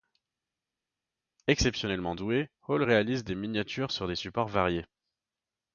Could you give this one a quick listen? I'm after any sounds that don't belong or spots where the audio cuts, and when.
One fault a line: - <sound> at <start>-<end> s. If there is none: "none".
none